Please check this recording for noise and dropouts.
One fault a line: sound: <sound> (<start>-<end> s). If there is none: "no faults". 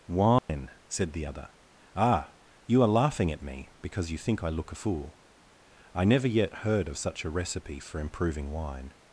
sound: dropout (0.4-0.5 s)